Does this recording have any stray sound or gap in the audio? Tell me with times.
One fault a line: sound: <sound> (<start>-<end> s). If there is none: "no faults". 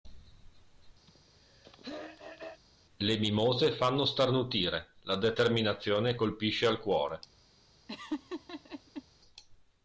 sound: throat clearing (1.1-2.6 s)
sound: laugh (7.9-9.0 s)